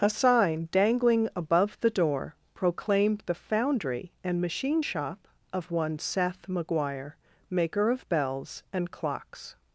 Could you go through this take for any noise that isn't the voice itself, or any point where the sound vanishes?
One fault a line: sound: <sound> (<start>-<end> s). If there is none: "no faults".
no faults